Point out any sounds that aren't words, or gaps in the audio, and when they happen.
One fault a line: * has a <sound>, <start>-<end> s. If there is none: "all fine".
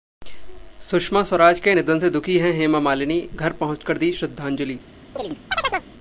* has a chirp, 5.2-5.9 s